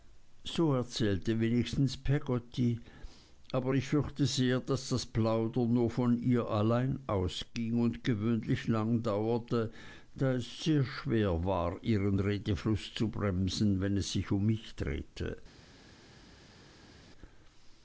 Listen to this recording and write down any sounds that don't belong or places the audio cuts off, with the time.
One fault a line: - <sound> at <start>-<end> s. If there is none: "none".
none